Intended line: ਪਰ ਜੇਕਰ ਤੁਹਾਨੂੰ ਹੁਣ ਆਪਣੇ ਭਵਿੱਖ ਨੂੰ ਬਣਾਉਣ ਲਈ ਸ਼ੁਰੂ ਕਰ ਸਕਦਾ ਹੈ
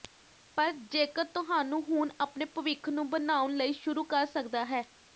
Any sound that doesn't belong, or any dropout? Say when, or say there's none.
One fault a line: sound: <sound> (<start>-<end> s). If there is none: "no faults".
no faults